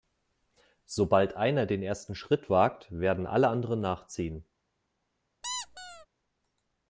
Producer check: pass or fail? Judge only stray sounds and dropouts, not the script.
fail